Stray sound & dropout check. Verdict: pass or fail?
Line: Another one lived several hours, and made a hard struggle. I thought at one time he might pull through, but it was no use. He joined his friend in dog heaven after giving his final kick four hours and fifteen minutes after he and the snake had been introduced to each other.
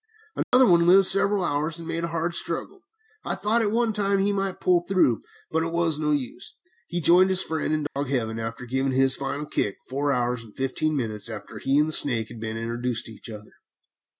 fail